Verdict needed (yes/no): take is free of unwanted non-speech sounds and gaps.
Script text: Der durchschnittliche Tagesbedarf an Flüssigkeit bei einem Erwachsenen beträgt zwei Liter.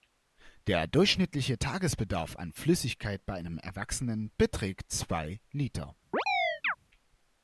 no